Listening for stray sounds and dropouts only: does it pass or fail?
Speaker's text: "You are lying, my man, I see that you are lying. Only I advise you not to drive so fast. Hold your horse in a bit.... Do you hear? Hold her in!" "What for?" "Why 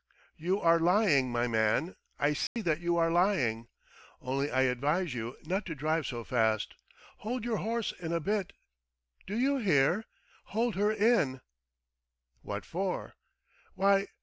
fail